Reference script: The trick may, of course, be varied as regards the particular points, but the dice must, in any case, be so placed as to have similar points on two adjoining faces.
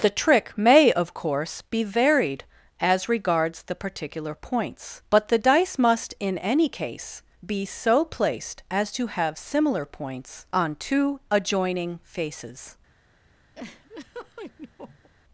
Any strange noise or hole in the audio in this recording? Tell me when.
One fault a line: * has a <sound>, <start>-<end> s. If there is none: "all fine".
* has a laugh, 13.5-15.1 s